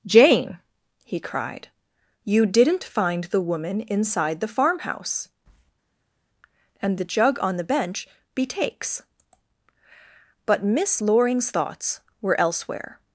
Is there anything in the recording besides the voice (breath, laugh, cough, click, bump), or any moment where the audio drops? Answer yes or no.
no